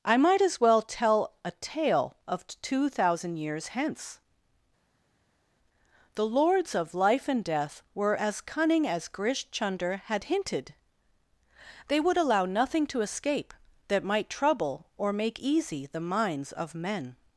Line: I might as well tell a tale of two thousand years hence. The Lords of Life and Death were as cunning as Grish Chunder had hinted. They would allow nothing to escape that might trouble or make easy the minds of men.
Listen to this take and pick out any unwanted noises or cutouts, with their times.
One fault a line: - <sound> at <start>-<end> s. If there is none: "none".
none